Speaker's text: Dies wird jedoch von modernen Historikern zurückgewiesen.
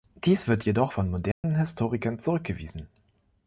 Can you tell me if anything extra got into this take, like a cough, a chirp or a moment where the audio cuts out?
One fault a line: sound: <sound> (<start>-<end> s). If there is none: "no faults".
sound: dropout (1.3-1.4 s)